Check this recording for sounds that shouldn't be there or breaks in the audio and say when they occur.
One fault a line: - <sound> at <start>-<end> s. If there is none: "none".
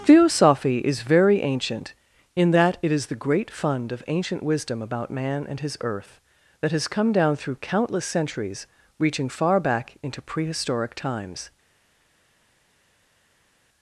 none